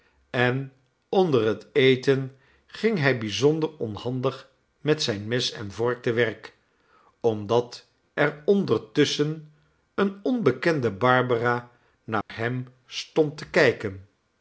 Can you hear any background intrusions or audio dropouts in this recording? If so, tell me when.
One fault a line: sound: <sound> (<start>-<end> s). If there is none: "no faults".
sound: dropout (12.2-12.3 s)